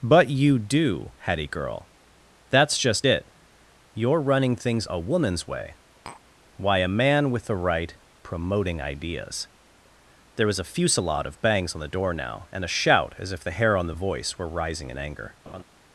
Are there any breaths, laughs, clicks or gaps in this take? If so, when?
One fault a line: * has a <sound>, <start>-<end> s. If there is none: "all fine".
* has a tap, 6.1-6.2 s
* has a laugh, 15.5-15.6 s